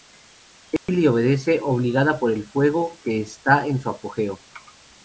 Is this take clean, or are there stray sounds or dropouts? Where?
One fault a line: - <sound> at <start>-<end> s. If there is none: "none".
- dropout at 0.8-0.9 s